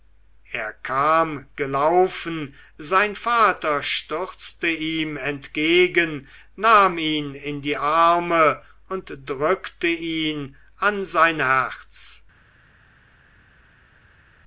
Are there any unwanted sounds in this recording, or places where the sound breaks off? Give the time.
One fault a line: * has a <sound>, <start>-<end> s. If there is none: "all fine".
all fine